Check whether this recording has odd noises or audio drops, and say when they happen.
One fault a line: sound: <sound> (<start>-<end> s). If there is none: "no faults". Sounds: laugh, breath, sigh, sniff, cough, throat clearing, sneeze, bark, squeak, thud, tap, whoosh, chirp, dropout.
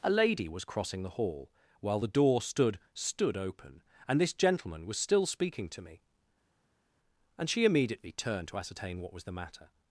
no faults